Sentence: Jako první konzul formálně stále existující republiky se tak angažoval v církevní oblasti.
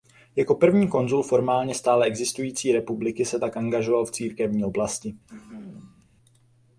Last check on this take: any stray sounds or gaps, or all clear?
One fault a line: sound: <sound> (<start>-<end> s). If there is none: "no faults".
sound: throat clearing (5.3-6.0 s)